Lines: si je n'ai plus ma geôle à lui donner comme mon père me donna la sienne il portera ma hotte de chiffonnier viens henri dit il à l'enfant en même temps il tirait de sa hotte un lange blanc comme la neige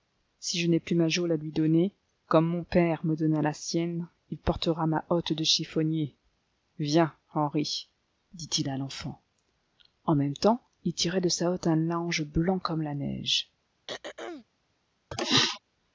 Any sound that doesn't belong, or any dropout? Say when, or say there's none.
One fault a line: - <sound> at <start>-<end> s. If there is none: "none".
- throat clearing at 13.9-14.4 s
- throat clearing at 15.1-15.6 s